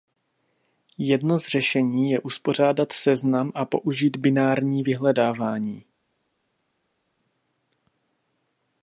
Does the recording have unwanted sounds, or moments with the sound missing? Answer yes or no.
no